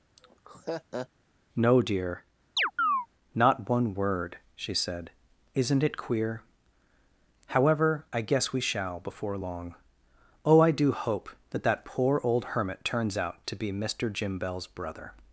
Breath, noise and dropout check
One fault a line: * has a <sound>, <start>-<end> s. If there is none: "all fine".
* has a laugh, 0.2-1.1 s
* has a chirp, 2.6-3.1 s